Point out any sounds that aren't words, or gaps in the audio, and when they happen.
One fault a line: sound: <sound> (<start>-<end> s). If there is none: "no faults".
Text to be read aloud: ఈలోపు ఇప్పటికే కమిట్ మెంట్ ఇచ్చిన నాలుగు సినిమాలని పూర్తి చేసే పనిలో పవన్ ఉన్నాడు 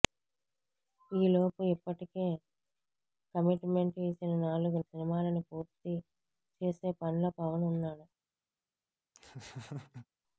sound: laugh (9.1-10.1 s)